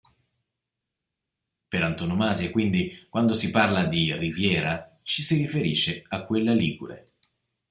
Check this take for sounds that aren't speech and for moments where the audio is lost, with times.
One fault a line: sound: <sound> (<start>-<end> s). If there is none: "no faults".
no faults